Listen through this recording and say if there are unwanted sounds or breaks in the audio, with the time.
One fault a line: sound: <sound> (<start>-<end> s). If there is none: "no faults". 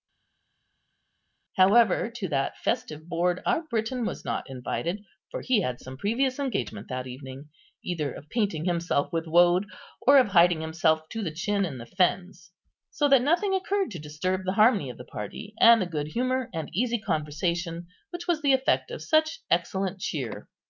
no faults